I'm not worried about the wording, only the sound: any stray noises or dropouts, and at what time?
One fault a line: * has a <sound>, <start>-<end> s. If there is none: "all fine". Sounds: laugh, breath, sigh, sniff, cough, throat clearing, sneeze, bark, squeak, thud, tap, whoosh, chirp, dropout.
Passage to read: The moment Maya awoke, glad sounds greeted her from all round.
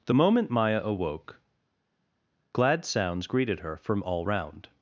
all fine